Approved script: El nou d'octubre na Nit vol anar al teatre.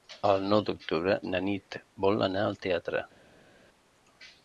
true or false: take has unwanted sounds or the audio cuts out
false